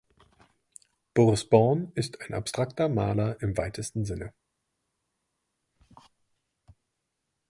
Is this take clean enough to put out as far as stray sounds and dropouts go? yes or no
yes